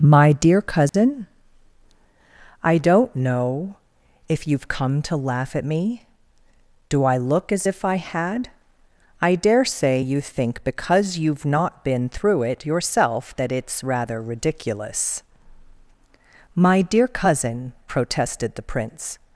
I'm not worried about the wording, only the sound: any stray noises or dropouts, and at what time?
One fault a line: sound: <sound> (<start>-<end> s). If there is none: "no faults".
sound: dropout (0.9-0.9 s)